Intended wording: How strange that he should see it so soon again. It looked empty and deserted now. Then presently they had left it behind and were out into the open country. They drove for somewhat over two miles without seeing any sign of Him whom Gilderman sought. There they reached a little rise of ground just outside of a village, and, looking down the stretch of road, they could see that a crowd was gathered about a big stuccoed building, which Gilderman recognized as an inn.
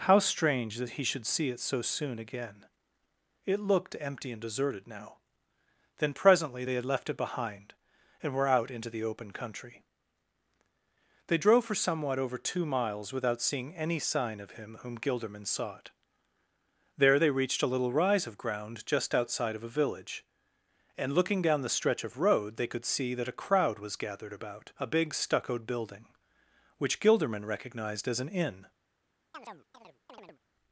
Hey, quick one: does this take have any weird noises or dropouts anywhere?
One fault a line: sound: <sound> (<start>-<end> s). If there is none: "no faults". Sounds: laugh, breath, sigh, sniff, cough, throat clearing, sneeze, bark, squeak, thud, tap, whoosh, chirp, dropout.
sound: chirp (29.3-30.4 s)